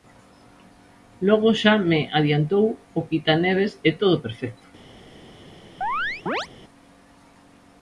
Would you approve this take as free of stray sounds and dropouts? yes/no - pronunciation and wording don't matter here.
no